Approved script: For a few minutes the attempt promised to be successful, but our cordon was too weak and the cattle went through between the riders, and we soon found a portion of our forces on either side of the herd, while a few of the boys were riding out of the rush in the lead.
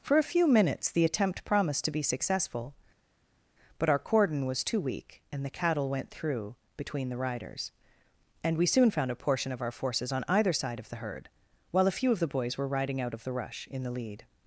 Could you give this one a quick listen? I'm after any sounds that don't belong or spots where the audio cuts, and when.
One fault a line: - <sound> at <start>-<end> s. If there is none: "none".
none